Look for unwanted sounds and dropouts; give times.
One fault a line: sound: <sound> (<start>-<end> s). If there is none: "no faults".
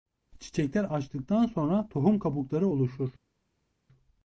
no faults